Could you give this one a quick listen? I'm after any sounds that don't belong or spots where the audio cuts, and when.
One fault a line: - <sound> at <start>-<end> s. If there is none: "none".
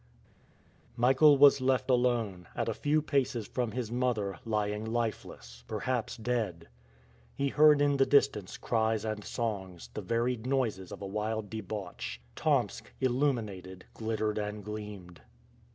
none